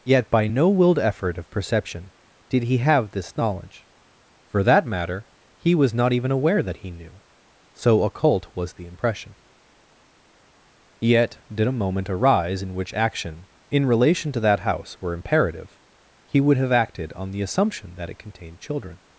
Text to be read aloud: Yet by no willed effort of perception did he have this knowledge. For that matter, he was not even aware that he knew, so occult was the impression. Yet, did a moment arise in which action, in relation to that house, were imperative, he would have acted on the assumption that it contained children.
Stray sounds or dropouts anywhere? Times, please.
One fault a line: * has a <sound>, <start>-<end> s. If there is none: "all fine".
all fine